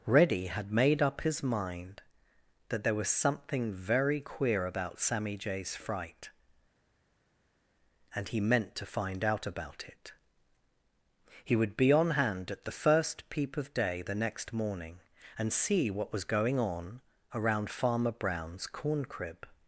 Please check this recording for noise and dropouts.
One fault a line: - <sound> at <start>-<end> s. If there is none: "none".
none